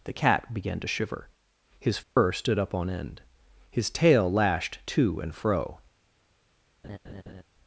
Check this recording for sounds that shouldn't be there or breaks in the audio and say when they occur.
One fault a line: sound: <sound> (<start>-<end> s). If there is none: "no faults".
sound: dropout (2.0-2.2 s)
sound: laugh (6.8-7.4 s)